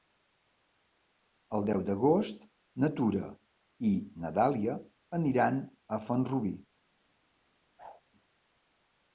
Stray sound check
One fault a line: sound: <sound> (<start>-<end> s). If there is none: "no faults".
sound: whoosh (7.8-8.0 s)